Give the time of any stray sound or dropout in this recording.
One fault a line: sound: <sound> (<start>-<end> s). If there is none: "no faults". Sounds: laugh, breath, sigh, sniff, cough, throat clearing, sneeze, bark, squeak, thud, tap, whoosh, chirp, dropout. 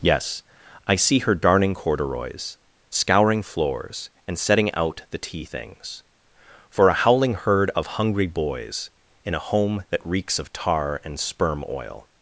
no faults